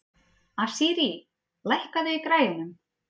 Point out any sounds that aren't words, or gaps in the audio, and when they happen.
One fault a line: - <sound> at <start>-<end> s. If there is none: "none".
none